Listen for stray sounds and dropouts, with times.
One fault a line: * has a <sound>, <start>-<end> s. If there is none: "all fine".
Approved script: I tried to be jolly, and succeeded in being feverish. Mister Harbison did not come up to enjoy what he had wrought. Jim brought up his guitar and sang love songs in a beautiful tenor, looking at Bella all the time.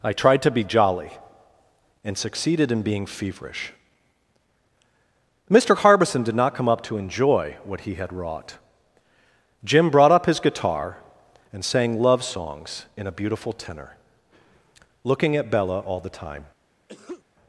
* has a sneeze, 16.9-17.2 s